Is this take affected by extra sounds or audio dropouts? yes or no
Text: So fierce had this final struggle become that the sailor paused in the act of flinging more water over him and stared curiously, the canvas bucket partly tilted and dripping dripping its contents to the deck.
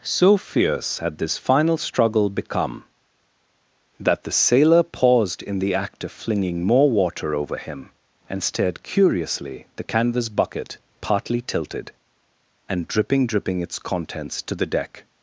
no